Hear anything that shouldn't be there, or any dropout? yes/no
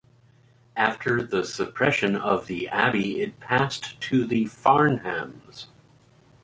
no